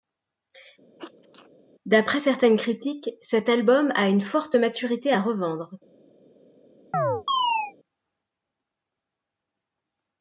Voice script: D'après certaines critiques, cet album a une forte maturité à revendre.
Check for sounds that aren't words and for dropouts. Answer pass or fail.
fail